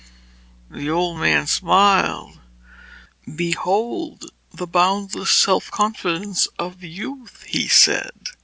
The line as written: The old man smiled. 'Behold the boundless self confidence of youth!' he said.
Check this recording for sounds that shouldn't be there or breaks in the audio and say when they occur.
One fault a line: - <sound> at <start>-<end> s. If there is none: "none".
none